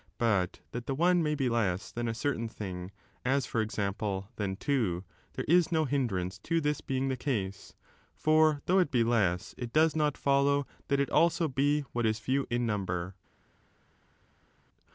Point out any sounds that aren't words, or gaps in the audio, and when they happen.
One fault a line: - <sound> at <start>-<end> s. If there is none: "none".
none